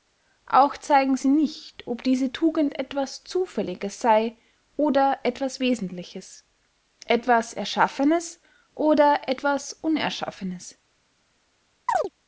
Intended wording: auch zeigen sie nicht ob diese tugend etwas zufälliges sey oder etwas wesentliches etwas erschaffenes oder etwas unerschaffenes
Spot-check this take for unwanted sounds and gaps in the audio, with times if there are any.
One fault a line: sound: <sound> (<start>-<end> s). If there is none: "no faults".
sound: chirp (11.9-12.1 s)